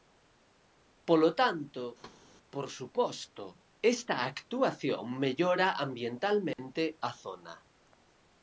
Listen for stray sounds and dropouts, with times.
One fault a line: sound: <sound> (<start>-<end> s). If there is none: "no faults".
sound: thud (2.0-2.2 s)
sound: dropout (6.5-6.6 s)